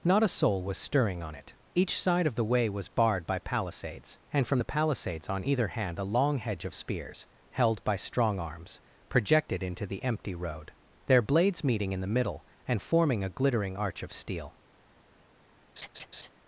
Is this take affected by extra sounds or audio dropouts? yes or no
yes